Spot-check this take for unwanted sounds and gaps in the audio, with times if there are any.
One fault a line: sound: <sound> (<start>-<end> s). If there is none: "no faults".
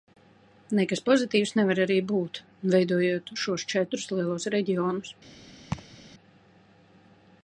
sound: laugh (5.7-6.0 s)